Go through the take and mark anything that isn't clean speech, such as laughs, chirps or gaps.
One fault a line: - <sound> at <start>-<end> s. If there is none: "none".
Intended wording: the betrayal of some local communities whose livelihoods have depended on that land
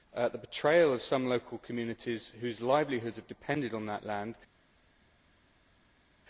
none